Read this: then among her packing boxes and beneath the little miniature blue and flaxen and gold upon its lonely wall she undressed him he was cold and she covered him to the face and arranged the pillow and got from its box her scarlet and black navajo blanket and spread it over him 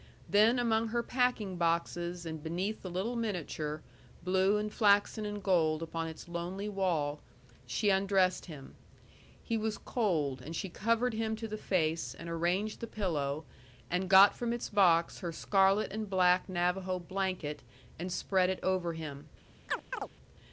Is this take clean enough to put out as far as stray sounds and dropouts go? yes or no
no